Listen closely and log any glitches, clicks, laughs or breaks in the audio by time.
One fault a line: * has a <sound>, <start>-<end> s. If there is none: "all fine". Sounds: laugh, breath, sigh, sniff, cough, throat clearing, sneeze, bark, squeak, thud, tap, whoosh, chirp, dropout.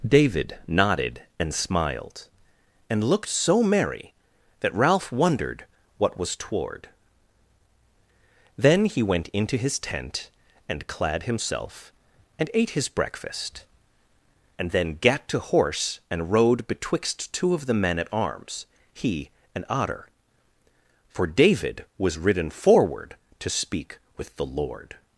all fine